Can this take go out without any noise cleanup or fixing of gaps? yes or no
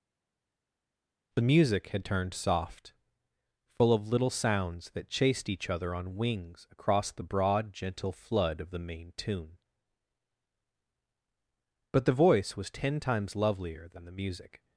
yes